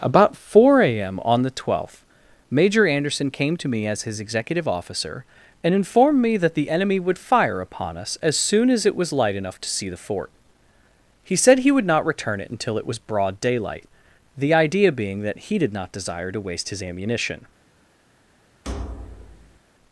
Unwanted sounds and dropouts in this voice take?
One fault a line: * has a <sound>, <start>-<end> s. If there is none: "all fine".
* has a thud, 18.6-19.6 s